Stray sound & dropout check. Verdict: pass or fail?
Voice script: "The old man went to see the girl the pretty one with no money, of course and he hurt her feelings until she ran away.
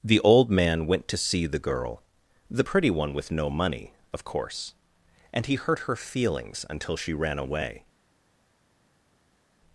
pass